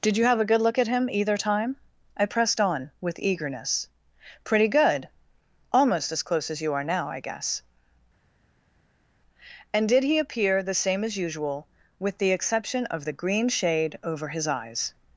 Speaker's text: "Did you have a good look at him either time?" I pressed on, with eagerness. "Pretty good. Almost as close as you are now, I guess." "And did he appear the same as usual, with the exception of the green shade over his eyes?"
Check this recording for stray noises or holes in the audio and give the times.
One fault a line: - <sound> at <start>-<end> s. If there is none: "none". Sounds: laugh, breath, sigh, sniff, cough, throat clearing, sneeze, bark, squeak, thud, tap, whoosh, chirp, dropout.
none